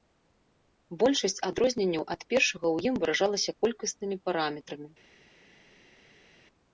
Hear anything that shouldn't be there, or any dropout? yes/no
no